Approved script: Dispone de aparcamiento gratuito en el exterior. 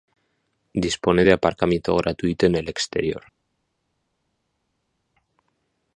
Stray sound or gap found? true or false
false